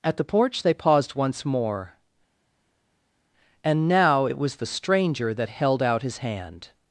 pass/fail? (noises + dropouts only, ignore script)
pass